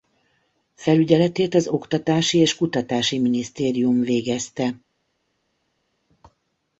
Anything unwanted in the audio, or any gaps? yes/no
no